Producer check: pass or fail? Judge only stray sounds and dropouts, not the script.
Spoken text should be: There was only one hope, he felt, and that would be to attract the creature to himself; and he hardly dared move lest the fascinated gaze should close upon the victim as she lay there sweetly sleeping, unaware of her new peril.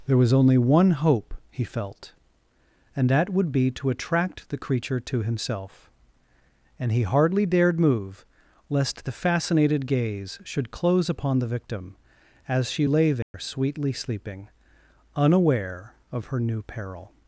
fail